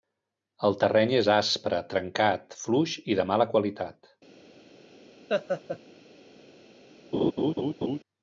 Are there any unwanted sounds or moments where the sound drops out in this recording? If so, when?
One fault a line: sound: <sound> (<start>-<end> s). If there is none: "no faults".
sound: laugh (5.3-5.8 s)
sound: laugh (7.1-8.0 s)